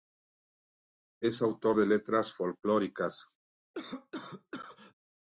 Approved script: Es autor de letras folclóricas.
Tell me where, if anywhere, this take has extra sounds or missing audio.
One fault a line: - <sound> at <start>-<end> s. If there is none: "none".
- cough at 3.7-4.9 s